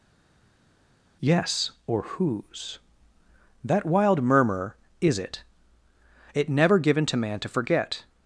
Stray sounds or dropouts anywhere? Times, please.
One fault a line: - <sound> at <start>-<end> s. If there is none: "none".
none